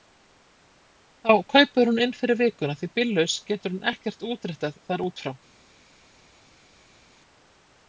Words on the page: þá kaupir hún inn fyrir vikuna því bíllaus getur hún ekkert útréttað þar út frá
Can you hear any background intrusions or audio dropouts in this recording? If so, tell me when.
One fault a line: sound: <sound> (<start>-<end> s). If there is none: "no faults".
no faults